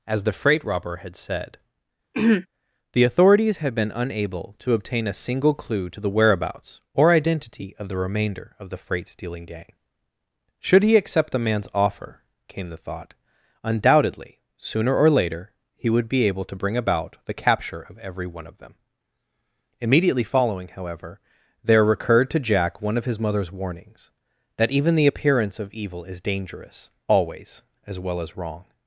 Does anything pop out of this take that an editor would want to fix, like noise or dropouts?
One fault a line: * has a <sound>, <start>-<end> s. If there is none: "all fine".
* has a throat clearing, 2.1-2.5 s